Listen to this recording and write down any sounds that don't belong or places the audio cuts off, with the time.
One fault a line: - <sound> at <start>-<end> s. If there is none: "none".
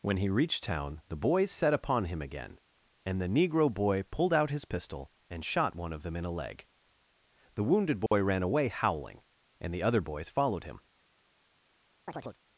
- dropout at 8.1-8.1 s
- chirp at 12.1-12.4 s